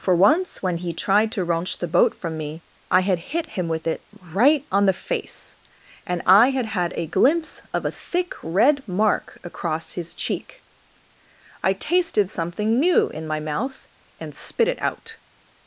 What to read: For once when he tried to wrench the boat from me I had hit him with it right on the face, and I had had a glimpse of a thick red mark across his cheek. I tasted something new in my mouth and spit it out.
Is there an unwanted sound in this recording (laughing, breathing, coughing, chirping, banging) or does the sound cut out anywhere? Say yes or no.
no